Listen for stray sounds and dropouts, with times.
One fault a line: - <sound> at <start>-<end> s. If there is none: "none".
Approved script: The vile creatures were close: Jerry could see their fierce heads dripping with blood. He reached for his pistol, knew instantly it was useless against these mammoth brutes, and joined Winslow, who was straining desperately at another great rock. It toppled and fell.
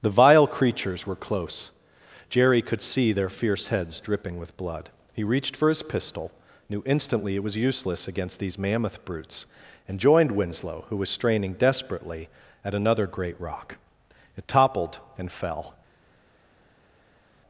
none